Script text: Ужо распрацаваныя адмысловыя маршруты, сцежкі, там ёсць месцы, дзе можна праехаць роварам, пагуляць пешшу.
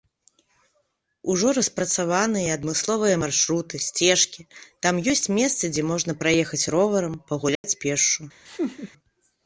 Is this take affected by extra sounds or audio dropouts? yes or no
yes